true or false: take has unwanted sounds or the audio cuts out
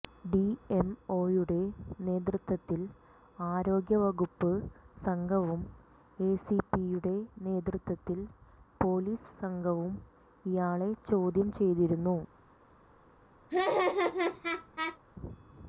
true